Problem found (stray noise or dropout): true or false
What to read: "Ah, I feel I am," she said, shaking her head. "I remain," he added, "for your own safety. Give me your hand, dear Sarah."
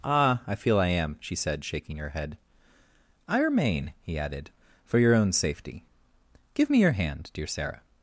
false